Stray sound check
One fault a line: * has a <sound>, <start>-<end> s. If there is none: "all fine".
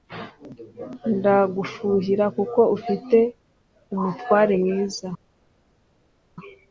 all fine